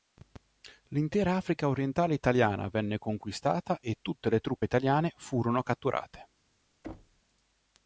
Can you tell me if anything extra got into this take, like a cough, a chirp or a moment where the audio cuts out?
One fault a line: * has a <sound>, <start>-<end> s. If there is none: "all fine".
* has a thud, 6.8-7.2 s